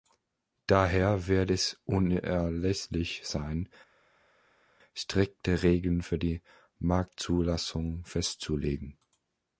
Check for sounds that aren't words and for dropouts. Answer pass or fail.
pass